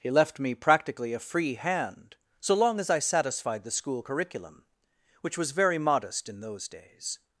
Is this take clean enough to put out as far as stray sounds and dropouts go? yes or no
yes